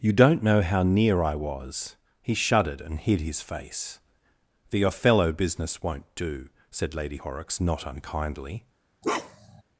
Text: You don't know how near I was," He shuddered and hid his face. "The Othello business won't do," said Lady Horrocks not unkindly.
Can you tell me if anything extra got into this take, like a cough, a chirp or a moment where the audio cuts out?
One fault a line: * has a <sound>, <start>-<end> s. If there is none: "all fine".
* has a bark, 9.0-9.6 s